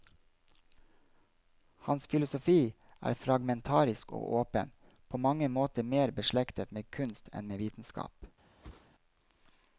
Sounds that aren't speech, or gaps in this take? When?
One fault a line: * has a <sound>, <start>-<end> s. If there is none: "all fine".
* has a whoosh, 8.6-8.9 s